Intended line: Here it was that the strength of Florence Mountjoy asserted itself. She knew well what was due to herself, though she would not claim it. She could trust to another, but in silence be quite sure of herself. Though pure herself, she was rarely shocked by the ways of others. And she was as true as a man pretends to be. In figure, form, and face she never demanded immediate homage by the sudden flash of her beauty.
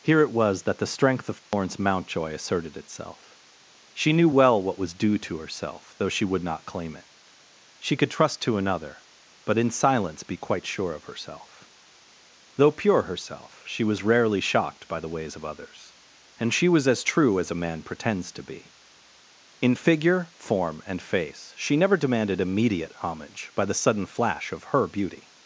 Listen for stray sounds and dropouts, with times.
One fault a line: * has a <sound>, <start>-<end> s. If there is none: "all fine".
* has a dropout, 1.4-1.5 s